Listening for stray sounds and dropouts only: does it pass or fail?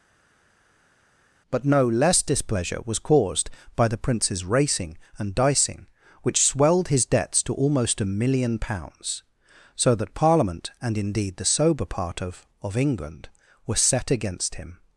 pass